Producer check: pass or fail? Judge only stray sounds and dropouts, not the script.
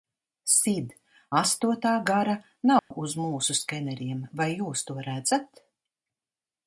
fail